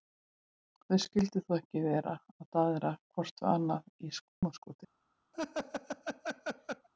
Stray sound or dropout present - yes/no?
yes